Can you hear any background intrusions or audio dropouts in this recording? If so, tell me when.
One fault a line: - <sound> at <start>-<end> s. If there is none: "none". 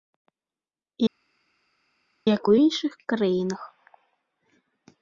none